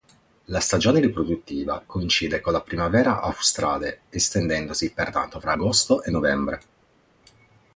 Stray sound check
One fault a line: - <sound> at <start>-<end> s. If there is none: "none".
none